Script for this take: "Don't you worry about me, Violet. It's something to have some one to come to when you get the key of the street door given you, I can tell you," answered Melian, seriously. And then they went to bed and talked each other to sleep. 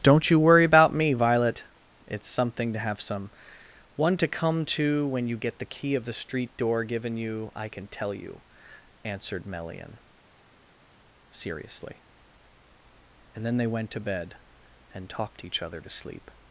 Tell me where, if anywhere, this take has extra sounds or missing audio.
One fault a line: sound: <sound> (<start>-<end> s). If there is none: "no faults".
no faults